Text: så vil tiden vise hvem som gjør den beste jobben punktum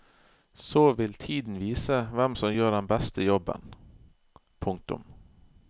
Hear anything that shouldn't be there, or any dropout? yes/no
no